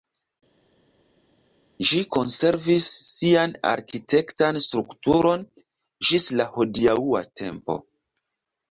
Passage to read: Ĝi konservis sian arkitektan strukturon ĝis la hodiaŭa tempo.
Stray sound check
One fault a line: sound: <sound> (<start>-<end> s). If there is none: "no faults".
no faults